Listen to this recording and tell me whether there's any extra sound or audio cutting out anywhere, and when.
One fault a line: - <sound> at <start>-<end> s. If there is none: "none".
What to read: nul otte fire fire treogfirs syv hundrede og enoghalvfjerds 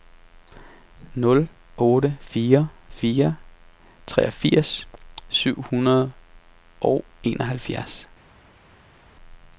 none